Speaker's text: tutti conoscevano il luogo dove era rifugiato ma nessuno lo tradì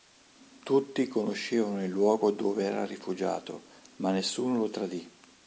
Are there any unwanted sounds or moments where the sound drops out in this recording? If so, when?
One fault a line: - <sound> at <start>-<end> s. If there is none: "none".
none